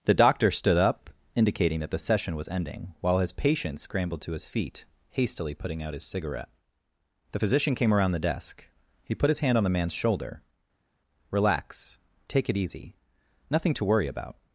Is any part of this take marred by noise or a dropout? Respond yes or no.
no